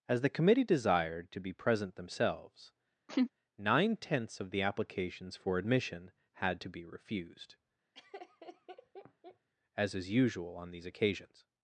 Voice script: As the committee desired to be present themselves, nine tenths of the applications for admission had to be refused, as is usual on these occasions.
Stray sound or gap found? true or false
true